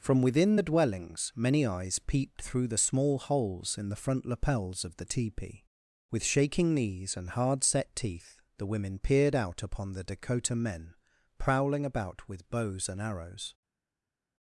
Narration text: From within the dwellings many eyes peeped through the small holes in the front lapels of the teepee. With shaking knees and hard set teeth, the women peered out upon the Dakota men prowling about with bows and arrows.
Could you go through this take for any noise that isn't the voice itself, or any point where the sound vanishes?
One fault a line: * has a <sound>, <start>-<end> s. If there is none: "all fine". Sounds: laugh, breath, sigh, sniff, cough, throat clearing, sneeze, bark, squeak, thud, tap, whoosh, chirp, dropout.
all fine